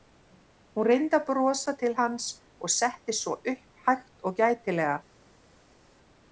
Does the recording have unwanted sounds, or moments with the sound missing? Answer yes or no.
no